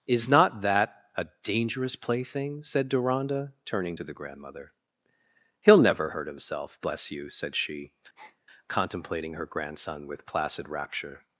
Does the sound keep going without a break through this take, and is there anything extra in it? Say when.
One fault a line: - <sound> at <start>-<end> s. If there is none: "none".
- breath at 8.2-8.4 s